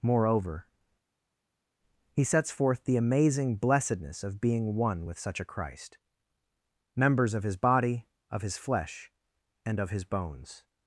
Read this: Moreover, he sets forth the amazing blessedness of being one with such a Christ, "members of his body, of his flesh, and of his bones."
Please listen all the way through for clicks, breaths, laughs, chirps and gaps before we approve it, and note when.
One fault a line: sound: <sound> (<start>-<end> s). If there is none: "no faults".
no faults